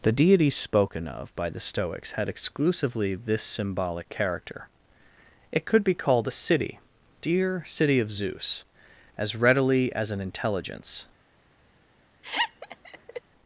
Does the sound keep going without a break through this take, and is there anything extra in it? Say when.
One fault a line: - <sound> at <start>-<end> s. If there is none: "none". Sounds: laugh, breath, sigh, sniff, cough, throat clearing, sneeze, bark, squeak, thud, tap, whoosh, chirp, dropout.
- laugh at 12.2-13.2 s